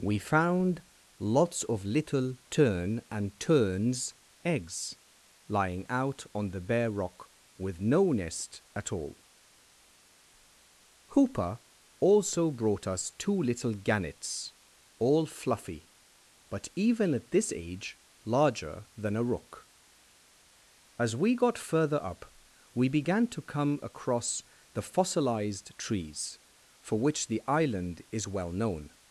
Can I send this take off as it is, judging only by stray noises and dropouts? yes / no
yes